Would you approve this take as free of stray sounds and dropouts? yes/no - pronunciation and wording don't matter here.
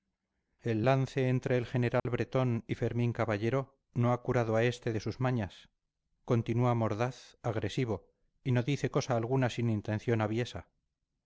no